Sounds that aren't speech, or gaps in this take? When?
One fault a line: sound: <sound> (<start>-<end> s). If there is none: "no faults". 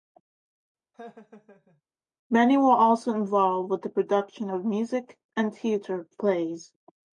sound: laugh (0.9-1.8 s)